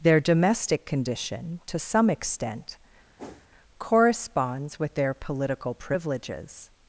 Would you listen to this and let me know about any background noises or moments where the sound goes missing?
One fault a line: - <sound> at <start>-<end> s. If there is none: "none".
- whoosh at 3.2-3.5 s